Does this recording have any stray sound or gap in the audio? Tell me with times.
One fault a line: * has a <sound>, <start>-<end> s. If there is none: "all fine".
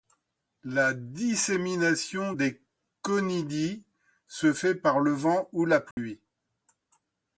* has a dropout, 5.9-6.0 s